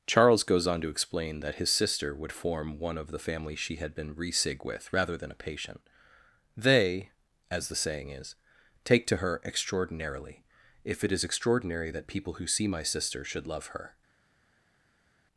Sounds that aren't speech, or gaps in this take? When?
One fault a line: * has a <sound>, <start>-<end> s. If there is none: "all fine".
all fine